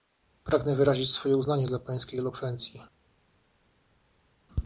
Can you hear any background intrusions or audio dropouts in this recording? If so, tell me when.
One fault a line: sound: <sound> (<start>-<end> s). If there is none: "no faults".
no faults